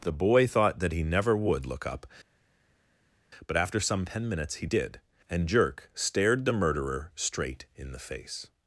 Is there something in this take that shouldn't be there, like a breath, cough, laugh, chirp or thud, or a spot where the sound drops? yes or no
no